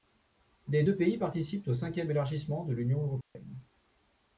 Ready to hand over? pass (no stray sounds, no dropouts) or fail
fail